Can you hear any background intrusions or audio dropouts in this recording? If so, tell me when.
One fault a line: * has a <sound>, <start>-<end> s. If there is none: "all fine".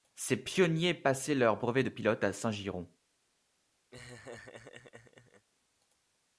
* has a laugh, 3.9-5.5 s